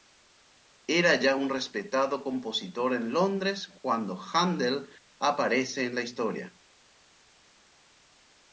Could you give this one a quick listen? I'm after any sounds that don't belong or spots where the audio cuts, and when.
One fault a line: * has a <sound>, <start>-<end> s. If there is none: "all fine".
all fine